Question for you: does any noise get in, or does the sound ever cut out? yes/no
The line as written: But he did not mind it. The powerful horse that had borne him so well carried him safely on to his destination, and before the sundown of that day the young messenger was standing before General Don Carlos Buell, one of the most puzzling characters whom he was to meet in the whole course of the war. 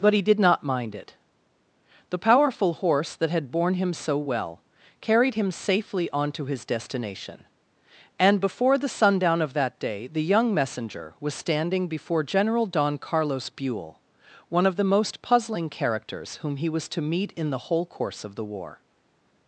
no